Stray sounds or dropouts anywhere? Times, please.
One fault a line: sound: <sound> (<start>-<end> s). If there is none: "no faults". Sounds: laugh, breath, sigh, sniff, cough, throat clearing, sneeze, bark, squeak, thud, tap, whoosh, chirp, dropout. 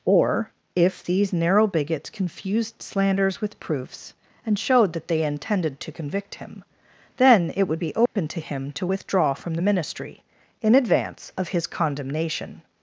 sound: dropout (8.1-8.2 s)